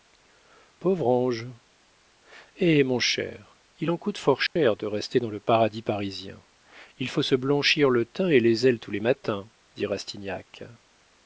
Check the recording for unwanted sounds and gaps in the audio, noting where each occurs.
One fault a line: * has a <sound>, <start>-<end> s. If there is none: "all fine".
* has a dropout, 4.5-4.6 s